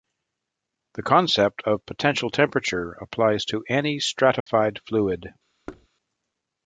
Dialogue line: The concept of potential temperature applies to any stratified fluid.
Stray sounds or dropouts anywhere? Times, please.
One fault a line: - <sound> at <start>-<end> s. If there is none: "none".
- dropout at 4.4-4.5 s
- thud at 5.7-5.9 s